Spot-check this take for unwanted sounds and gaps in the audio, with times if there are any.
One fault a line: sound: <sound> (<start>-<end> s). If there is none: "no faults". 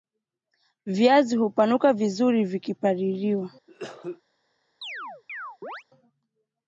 sound: cough (3.7-4.2 s)
sound: chirp (4.8-5.8 s)